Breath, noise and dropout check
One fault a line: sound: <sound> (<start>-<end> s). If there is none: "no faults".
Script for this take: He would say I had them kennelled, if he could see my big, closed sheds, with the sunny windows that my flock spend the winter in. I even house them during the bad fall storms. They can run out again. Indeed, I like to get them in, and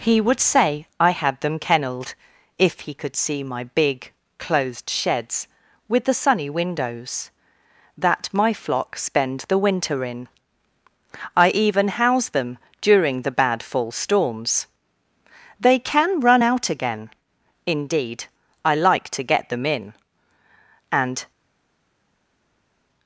no faults